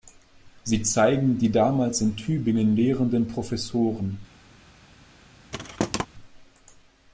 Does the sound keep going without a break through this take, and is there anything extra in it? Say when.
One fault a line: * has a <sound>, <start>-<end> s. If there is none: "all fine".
* has a thud, 5.5-6.1 s